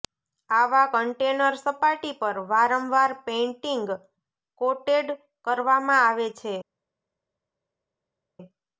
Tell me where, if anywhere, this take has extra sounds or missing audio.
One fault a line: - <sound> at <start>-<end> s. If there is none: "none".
none